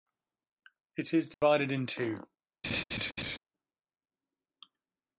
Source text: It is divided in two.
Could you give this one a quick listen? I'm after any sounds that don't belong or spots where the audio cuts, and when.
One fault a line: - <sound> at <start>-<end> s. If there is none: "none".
- dropout at 1.3-1.4 s
- laugh at 2.6-3.4 s